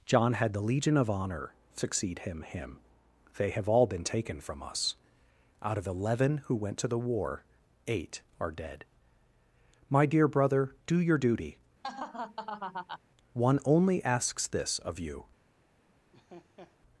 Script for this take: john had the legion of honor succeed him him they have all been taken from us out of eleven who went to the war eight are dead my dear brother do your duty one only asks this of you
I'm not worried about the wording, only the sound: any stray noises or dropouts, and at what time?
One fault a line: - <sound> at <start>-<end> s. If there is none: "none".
- laugh at 11.8-13.0 s
- laugh at 16.1-16.8 s